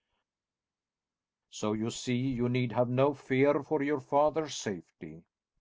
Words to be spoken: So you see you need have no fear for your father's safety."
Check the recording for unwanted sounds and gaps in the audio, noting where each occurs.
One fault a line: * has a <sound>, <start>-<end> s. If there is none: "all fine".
all fine